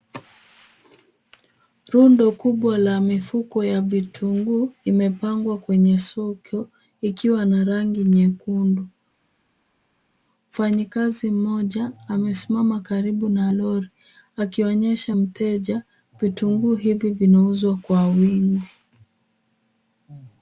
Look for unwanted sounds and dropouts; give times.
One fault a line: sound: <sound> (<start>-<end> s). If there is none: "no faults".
no faults